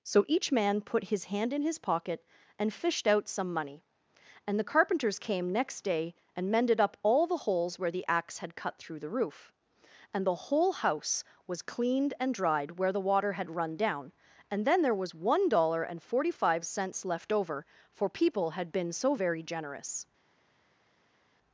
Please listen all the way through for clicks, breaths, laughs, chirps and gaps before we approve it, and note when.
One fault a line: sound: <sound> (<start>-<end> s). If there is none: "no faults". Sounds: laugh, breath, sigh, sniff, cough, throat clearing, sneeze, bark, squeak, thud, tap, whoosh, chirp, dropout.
no faults